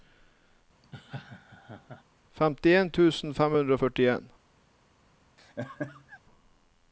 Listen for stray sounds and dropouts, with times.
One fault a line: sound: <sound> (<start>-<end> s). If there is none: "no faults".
sound: laugh (0.8-2.0 s)
sound: laugh (5.4-6.2 s)